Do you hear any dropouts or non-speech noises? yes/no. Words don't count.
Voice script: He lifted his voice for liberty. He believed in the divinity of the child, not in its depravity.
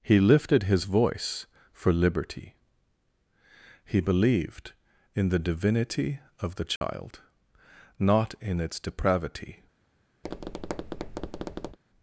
yes